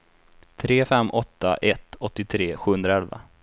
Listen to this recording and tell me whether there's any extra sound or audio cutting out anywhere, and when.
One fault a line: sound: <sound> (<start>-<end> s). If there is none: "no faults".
no faults